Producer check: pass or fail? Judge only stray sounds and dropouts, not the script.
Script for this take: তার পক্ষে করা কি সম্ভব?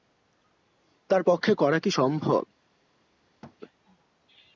fail